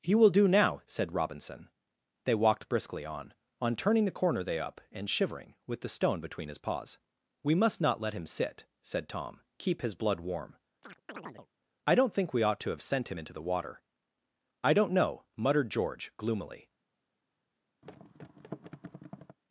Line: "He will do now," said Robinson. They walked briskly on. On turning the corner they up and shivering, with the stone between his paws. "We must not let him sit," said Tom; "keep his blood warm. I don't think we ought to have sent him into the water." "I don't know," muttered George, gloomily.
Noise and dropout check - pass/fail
fail